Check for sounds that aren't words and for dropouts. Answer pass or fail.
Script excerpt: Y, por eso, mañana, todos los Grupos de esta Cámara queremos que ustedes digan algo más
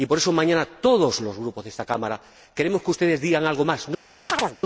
fail